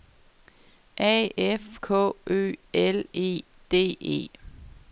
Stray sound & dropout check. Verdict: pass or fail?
pass